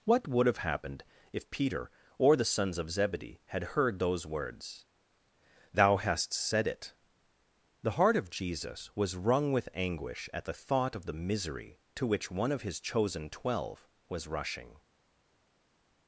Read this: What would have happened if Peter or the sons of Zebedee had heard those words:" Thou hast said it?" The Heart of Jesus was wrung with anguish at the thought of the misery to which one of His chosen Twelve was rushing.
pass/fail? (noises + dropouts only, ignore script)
pass